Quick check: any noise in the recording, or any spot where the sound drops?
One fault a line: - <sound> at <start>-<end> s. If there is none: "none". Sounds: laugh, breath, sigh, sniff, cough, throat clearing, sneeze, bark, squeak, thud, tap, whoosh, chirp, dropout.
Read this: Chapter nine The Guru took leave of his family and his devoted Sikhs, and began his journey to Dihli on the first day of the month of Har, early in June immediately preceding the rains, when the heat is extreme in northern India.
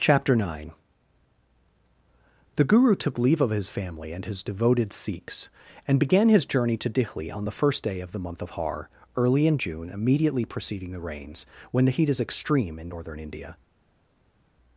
none